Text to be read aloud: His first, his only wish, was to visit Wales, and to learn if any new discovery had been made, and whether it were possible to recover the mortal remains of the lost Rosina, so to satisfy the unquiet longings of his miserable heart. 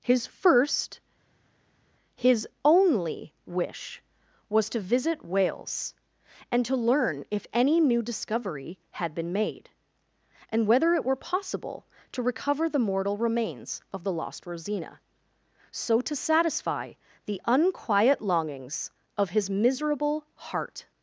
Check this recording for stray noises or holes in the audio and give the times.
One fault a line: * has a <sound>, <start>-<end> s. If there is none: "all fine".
all fine